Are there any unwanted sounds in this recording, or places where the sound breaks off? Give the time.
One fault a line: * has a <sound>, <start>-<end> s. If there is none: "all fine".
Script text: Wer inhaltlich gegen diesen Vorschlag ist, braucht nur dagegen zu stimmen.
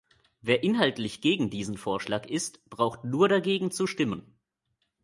all fine